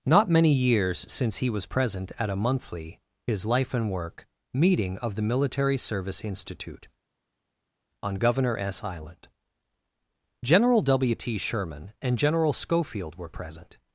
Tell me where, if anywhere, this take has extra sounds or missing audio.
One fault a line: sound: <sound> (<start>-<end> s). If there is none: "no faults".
no faults